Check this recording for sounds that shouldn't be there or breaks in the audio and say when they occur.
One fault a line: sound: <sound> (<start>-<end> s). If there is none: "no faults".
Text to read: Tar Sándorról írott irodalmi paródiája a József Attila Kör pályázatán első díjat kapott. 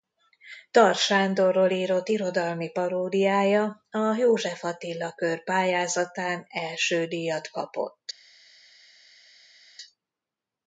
no faults